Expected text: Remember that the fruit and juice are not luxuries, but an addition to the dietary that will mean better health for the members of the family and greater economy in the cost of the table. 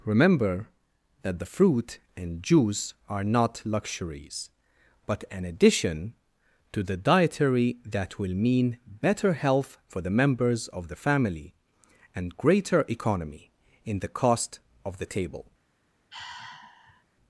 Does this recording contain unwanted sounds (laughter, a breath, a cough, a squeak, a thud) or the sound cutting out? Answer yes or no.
yes